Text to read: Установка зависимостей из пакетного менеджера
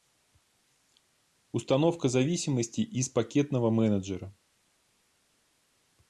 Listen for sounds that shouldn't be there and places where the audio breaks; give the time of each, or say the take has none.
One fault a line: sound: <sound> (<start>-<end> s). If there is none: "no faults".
no faults